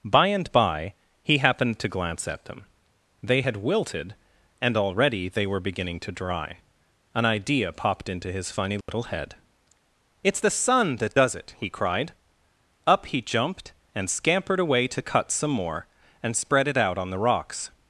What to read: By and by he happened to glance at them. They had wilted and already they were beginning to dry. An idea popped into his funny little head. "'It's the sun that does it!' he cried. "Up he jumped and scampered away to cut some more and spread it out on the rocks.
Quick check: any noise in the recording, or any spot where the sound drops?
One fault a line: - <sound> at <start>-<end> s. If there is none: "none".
- dropout at 8.8-8.9 s